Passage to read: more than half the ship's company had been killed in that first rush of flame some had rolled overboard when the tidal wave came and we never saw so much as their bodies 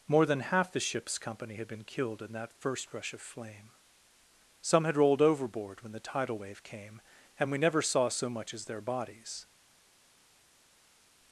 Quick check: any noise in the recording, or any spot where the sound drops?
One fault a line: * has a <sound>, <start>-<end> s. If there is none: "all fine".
all fine